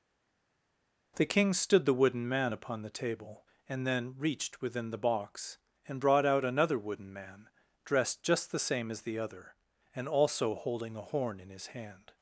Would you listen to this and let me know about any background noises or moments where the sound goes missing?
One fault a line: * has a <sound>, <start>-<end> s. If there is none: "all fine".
all fine